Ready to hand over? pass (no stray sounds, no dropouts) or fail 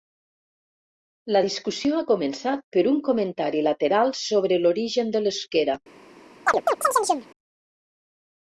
fail